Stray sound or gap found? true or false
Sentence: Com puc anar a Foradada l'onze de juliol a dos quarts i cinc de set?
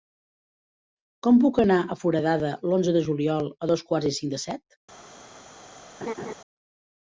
true